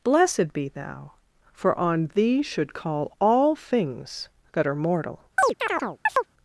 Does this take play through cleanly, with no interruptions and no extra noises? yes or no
no